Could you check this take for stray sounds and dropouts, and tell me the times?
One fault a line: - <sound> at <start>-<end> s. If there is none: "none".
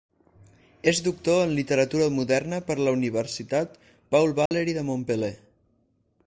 - dropout at 4.5-4.5 s